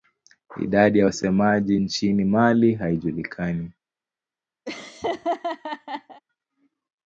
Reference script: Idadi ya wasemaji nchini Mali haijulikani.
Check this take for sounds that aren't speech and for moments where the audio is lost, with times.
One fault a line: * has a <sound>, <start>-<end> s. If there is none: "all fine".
* has a laugh, 4.7-6.2 s